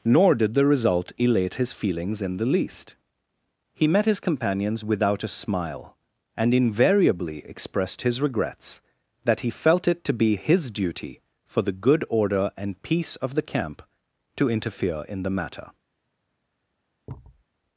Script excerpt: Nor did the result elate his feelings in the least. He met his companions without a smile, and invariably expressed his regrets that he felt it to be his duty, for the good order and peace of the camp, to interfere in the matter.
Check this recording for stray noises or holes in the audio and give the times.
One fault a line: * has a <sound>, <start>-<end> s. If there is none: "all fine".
* has a thud, 17.1-17.4 s